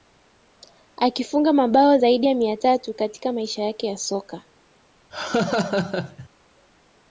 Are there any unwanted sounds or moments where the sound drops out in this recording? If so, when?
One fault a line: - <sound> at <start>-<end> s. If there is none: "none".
- laugh at 5.1-6.3 s